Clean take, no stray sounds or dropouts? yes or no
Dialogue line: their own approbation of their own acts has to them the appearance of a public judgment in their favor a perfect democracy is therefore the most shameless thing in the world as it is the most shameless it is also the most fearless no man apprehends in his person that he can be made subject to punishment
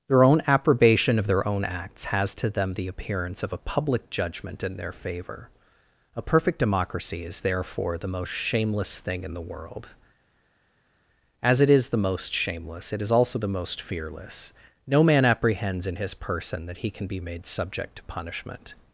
yes